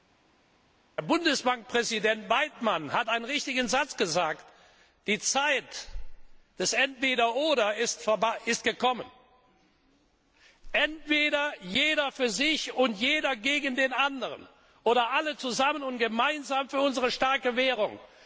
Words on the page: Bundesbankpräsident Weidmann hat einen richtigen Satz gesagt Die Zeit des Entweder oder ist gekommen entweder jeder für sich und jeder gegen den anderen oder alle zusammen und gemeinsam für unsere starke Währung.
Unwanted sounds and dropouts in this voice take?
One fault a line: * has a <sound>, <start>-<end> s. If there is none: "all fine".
all fine